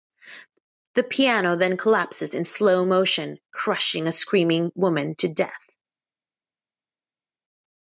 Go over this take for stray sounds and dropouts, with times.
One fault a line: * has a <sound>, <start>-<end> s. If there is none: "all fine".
all fine